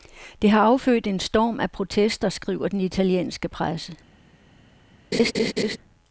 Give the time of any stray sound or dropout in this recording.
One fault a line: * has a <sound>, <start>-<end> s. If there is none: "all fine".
* has a laugh, 5.1-5.8 s